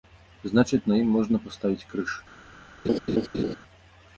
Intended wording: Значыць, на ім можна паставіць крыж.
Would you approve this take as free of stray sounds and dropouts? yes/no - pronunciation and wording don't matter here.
no